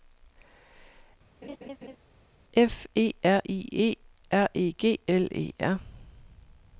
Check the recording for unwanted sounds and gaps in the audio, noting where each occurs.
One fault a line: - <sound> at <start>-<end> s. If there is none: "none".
- laugh at 1.4-2.0 s